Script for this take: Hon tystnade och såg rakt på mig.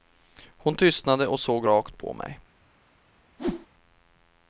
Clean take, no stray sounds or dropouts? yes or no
no